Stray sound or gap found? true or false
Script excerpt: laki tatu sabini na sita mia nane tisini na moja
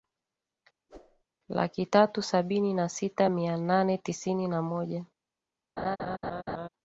true